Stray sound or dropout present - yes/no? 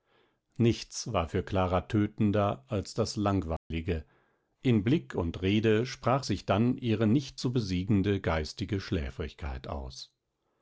yes